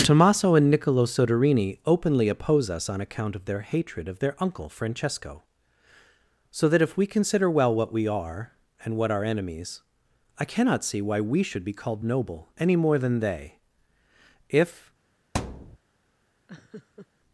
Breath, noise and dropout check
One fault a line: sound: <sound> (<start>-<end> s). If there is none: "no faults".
sound: thud (15.3-15.8 s)
sound: laugh (16.5-17.1 s)